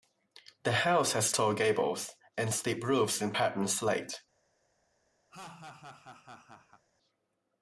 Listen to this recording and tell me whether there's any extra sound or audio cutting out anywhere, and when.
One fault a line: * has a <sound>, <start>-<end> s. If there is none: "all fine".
* has a laugh, 5.3-6.8 s